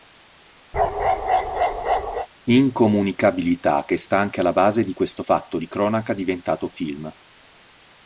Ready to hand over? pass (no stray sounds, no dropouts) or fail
fail